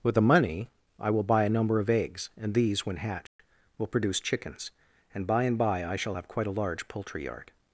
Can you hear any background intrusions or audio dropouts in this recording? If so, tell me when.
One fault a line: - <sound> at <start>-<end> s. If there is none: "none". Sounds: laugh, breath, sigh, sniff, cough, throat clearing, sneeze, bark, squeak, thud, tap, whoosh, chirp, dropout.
- dropout at 3.3-3.4 s